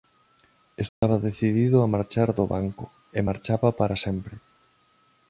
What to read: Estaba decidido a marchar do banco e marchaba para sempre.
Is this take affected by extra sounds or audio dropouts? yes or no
yes